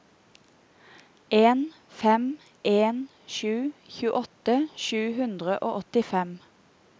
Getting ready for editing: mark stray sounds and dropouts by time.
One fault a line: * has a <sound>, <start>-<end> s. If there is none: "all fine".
all fine